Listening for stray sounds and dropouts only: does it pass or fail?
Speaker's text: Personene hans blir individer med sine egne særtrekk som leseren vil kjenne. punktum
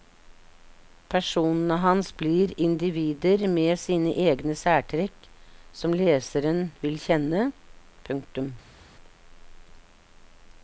pass